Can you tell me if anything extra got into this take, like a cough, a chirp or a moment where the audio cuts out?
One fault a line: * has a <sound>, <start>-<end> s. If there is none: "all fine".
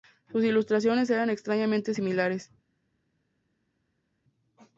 all fine